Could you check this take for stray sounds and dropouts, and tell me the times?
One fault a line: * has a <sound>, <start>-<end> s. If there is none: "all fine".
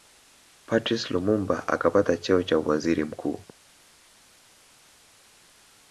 all fine